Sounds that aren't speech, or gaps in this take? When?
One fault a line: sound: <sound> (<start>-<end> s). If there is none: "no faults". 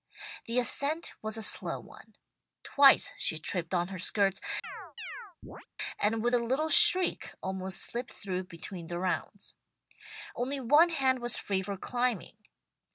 sound: chirp (4.6-5.7 s)